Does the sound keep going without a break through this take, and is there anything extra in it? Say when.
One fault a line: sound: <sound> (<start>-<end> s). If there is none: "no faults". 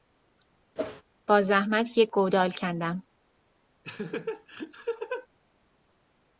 sound: whoosh (0.8-1.0 s)
sound: laugh (3.8-5.3 s)